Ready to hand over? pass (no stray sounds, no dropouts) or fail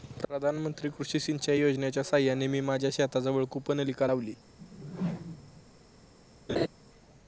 fail